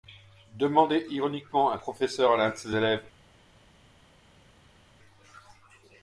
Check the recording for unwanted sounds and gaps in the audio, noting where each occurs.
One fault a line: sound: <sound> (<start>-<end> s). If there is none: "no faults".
no faults